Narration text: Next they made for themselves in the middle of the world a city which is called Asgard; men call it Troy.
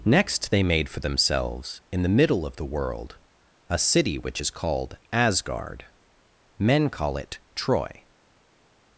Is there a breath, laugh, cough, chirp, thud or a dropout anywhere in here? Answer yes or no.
no